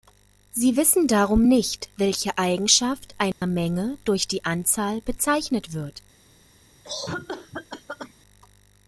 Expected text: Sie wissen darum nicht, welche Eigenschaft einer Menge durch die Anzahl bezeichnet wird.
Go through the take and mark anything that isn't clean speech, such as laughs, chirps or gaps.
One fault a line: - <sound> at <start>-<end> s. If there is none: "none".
- dropout at 3.3-3.4 s
- cough at 6.8-8.1 s